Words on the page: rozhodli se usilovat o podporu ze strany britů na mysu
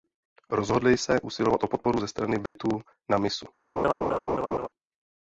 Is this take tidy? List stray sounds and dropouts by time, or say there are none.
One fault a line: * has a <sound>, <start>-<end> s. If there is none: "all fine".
* has a dropout, 2.5-2.6 s
* has a laugh, 3.8-4.7 s